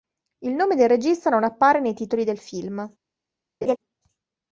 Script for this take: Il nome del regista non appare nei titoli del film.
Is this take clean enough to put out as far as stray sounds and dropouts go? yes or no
no